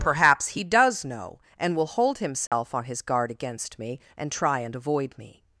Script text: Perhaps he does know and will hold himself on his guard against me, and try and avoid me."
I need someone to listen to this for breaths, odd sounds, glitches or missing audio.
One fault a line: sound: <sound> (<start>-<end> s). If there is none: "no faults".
sound: dropout (2.5-2.5 s)